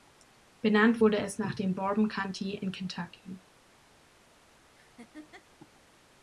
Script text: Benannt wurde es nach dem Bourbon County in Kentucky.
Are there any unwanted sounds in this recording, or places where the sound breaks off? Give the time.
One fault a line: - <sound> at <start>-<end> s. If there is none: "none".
- laugh at 4.7-5.5 s